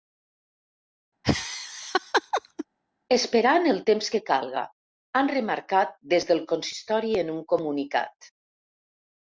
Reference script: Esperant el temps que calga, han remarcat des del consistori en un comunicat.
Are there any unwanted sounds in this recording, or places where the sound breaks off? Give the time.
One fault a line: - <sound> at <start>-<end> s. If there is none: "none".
- laugh at 1.2-2.7 s